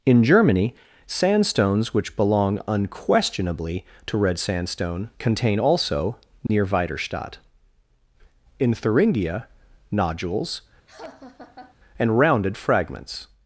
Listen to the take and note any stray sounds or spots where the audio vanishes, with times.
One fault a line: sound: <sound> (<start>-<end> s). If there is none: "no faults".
sound: dropout (6.5-6.5 s)
sound: laugh (10.9-11.8 s)